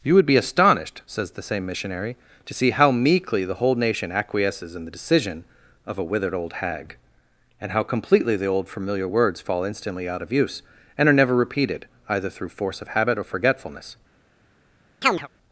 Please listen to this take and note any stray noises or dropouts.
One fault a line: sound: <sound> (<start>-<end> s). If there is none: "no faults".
sound: chirp (15.0-15.3 s)